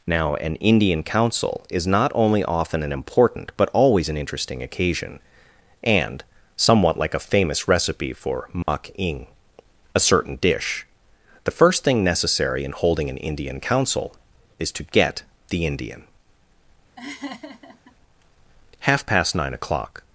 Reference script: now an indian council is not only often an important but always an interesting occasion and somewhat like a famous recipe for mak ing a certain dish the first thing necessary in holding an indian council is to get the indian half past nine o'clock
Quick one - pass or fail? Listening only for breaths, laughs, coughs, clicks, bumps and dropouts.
fail